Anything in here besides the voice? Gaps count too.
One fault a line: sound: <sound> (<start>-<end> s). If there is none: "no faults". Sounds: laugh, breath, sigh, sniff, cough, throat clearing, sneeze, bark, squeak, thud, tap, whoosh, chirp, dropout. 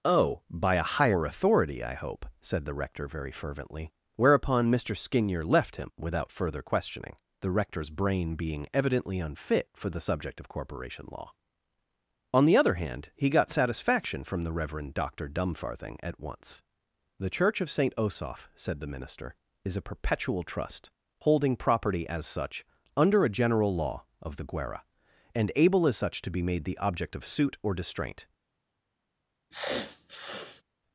sound: sniff (29.5-30.6 s)